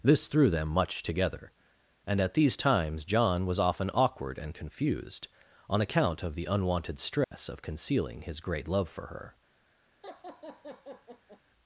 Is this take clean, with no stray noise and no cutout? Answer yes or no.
no